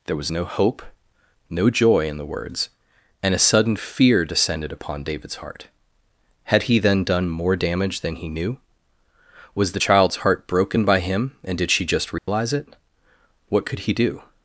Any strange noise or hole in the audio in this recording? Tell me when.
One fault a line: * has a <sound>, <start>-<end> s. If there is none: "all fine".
* has a dropout, 12.2-12.3 s